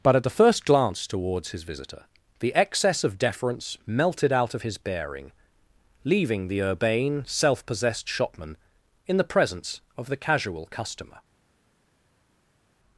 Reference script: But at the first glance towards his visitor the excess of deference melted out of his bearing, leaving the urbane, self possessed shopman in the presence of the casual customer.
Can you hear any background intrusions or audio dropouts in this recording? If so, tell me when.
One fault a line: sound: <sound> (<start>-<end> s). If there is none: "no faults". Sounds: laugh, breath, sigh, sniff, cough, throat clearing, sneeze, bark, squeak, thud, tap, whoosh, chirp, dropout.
no faults